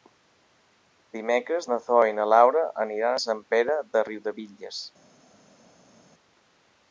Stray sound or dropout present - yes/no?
no